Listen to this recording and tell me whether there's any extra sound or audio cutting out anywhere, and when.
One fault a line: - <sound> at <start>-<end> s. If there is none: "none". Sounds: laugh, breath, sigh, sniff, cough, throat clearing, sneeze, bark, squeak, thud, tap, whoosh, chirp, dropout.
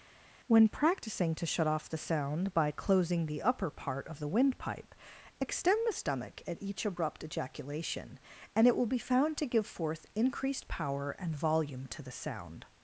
none